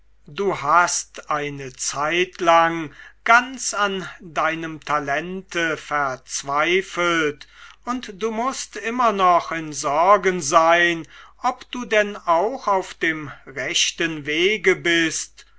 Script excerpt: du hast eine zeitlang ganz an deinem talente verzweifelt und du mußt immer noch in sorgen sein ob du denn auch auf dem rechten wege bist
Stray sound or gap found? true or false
false